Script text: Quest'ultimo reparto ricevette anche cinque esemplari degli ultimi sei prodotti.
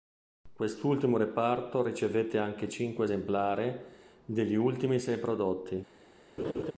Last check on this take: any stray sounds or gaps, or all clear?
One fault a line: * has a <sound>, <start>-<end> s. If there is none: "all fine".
* has a laugh, 6.4-6.7 s